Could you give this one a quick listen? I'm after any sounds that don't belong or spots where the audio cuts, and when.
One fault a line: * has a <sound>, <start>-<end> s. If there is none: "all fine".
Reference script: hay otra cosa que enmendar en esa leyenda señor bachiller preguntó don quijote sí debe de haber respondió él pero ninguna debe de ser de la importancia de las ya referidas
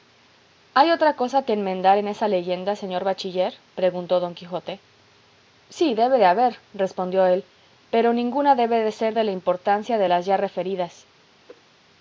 * has a whoosh, 11.5-11.6 s